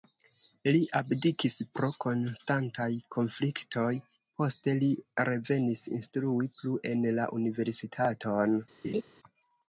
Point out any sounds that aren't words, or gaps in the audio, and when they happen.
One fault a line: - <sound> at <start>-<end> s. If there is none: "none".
- laugh at 8.8-9.0 s